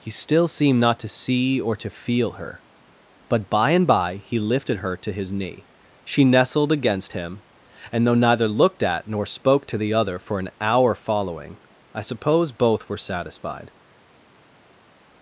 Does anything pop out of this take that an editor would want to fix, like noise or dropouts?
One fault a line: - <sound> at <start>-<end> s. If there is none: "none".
none